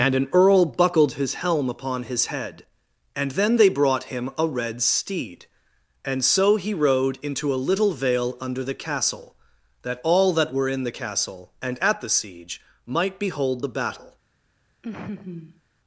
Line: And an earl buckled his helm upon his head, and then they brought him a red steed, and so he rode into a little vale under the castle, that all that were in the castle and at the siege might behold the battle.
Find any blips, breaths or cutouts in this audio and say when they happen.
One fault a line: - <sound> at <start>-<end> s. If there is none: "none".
- laugh at 14.8-15.6 s